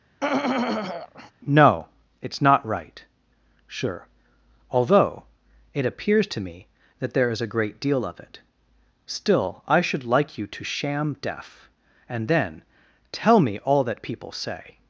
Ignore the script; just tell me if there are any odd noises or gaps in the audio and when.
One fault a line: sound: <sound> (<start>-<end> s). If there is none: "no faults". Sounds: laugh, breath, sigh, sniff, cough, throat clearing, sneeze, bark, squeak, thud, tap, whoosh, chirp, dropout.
sound: throat clearing (0.2-1.3 s)